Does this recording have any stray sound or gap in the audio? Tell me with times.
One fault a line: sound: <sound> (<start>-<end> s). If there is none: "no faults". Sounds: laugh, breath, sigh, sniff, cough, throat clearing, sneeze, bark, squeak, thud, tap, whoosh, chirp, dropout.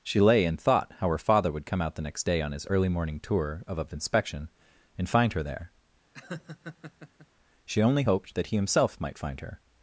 sound: laugh (6.1-7.3 s)